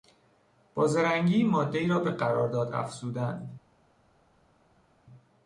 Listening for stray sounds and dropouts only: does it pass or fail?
pass